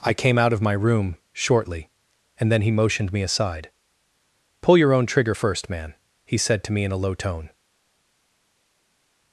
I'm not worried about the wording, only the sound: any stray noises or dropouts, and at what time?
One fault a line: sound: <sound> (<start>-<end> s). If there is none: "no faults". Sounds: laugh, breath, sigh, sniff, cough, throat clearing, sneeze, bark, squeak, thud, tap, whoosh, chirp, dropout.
no faults